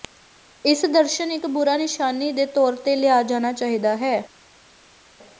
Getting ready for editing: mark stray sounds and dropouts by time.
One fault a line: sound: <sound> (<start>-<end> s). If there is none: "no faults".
no faults